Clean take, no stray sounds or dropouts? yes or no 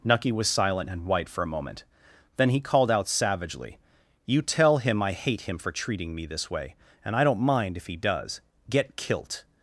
yes